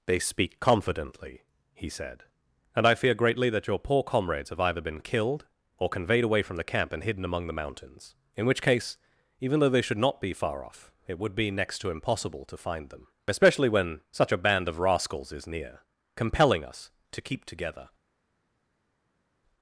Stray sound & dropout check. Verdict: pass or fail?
pass